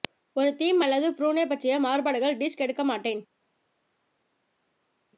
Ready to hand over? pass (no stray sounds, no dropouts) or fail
pass